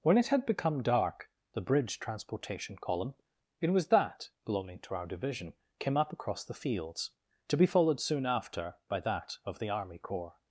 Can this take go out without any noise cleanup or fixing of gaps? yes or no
yes